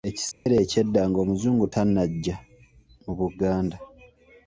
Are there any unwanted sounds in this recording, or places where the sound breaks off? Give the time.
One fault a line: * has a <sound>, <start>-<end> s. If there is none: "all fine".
* has a dropout, 0.3-0.5 s